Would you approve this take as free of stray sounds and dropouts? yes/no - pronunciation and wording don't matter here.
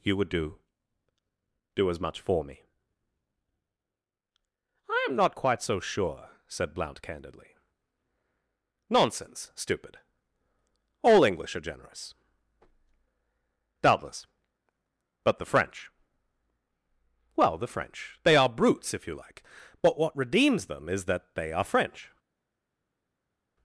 yes